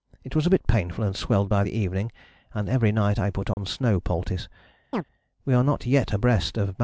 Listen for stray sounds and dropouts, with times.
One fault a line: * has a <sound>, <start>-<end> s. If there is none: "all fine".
* has a dropout, 3.5-3.6 s
* has a chirp, 4.9-5.0 s